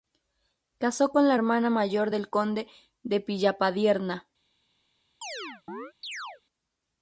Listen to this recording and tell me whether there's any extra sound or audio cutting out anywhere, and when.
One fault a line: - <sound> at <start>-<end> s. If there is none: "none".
- chirp at 5.2-6.4 s